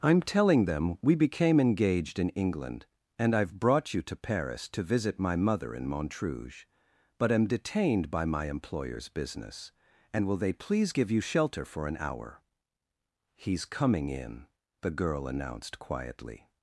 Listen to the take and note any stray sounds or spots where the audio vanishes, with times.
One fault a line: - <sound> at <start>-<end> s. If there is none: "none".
none